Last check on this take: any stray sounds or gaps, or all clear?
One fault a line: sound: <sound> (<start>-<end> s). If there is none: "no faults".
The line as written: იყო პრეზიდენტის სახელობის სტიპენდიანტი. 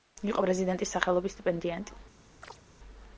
sound: chirp (2.4-2.6 s)